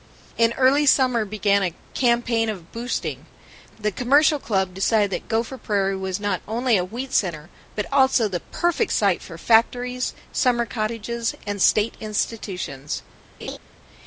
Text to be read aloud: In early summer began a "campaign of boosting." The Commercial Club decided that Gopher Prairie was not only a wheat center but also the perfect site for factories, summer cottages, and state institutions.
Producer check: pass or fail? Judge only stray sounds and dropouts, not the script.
fail